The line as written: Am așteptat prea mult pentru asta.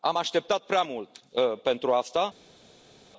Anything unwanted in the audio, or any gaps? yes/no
no